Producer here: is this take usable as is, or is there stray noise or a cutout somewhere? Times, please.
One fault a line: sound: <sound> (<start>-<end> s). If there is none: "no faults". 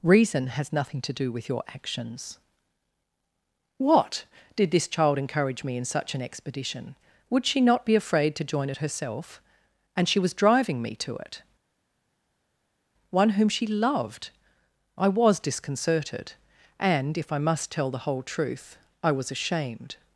no faults